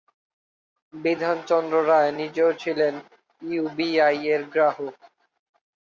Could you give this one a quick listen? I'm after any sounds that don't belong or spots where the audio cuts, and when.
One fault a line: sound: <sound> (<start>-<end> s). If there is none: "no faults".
no faults